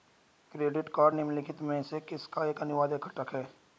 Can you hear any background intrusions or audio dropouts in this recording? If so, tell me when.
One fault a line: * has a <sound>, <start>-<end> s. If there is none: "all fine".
all fine